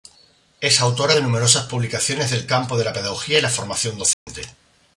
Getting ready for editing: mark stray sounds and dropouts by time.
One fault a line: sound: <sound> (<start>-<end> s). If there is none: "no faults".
sound: dropout (4.1-4.3 s)